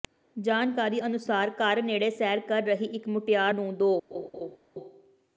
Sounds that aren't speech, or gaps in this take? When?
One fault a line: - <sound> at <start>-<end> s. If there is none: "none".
- laugh at 4.1-4.6 s